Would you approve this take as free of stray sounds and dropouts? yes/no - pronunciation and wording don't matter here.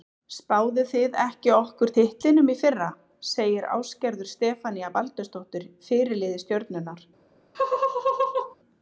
no